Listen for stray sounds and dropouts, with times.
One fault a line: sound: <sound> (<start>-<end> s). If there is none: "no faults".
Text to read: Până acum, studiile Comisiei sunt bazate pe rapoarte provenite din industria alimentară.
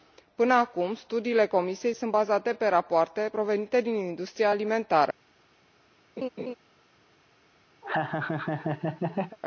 sound: laugh (6.2-6.5 s)
sound: laugh (7.8-9.4 s)